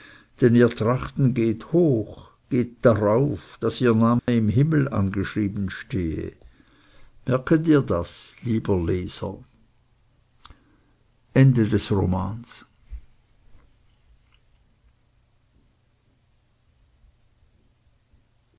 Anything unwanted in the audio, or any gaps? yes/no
yes